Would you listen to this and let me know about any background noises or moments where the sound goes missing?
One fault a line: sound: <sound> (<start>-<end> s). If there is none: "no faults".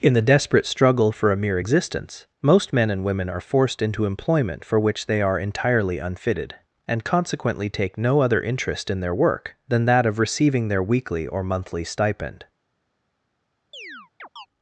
sound: chirp (13.7-14.5 s)